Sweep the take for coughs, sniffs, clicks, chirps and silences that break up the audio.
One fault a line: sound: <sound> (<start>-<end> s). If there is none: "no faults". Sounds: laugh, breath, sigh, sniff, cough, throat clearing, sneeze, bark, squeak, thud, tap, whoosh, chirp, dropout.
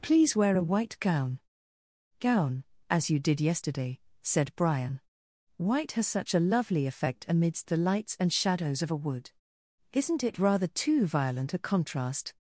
no faults